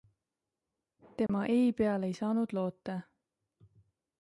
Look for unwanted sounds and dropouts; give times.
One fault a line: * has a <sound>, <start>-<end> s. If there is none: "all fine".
* has a dropout, 1.3-1.3 s